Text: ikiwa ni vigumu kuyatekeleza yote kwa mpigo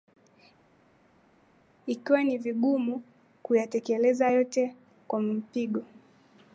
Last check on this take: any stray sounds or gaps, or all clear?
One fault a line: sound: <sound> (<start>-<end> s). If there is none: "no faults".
no faults